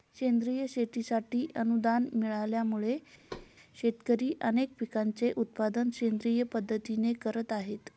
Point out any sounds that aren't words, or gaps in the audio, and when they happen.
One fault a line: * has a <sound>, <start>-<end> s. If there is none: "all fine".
* has a thud, 3.3-3.5 s